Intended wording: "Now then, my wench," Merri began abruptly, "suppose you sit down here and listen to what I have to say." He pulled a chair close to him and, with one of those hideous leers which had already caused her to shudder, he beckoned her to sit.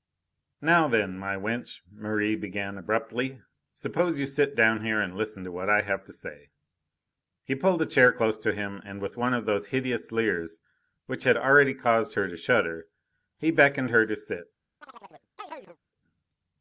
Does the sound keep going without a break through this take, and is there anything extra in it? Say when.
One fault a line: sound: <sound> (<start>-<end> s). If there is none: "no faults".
sound: chirp (14.8-15.8 s)